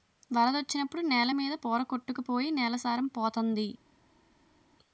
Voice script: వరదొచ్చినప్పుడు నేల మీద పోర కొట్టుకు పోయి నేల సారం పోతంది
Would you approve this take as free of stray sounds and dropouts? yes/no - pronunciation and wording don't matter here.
yes